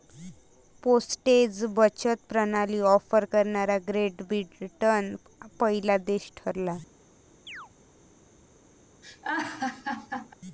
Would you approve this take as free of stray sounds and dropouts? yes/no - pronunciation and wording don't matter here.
no